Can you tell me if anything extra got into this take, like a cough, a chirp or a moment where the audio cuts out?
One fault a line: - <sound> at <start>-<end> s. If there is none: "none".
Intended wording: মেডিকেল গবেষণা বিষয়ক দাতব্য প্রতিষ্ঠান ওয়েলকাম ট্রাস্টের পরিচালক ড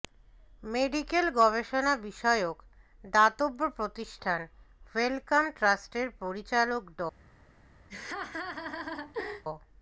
- laugh at 7.9-9.4 s